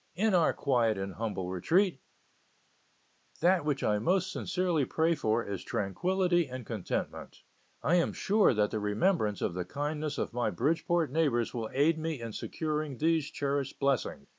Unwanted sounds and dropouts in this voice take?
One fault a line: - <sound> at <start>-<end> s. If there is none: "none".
none